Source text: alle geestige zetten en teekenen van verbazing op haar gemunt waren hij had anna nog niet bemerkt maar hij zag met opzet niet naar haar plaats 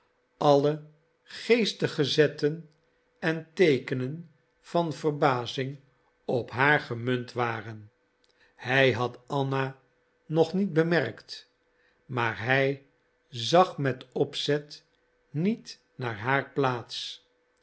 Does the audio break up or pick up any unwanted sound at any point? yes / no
no